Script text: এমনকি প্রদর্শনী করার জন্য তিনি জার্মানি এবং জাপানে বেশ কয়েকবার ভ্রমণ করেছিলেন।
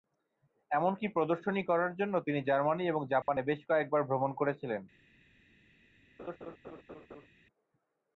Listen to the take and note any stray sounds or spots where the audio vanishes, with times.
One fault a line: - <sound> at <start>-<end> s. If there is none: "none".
- dropout at 3.2-3.3 s
- laugh at 6.2-7.3 s